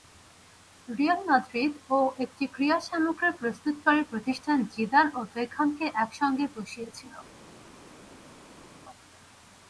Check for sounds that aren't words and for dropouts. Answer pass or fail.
pass